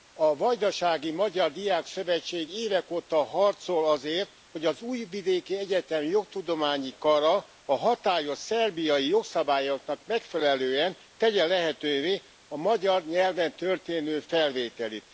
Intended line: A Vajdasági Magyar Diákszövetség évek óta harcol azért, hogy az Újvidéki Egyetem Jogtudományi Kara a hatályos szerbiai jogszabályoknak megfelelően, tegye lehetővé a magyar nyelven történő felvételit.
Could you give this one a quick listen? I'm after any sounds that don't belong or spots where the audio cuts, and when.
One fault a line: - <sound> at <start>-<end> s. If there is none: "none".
none